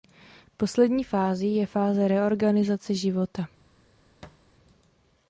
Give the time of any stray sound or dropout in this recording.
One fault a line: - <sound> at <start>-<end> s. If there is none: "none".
- thud at 4.2-4.5 s